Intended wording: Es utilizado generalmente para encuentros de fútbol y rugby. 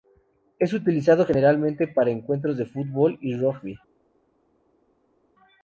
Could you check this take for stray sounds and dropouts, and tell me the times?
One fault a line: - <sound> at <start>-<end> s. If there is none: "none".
none